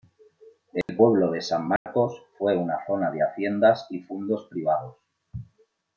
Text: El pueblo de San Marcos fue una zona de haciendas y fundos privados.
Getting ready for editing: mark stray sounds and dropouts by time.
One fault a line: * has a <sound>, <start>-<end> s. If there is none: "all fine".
* has a dropout, 0.8-0.9 s
* has a dropout, 1.8-1.9 s